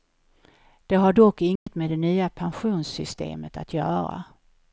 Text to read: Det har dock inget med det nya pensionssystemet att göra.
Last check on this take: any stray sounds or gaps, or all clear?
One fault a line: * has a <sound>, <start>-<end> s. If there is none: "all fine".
* has a dropout, 1.6-1.7 s